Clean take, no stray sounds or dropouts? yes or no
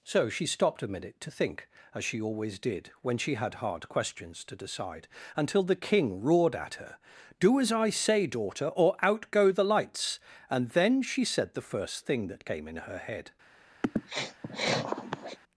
no